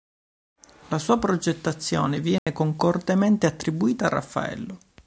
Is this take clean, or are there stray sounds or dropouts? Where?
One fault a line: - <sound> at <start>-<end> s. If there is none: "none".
- dropout at 2.4-2.5 s